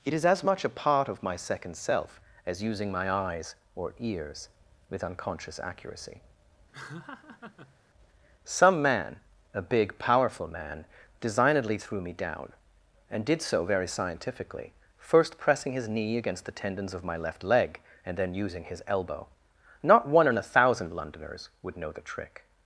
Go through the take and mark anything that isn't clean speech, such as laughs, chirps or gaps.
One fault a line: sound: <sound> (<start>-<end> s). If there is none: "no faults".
sound: laugh (6.7-7.8 s)